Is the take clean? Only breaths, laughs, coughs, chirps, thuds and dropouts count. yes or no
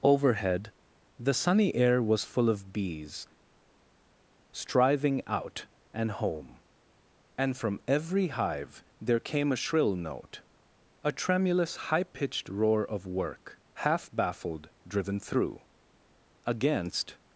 yes